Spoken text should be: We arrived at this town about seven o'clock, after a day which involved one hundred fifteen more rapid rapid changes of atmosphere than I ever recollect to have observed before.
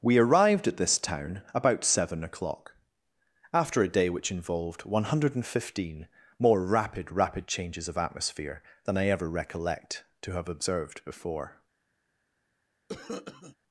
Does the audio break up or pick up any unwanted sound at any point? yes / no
yes